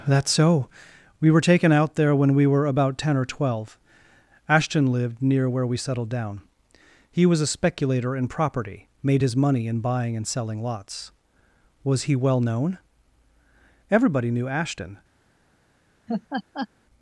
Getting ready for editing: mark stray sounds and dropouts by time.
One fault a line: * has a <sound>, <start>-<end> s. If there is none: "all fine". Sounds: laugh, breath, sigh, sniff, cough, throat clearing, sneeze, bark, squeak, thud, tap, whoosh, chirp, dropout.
* has a laugh, 16.1-16.7 s